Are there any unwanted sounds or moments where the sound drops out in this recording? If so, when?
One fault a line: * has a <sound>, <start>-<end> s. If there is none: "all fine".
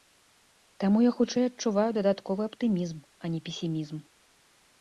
all fine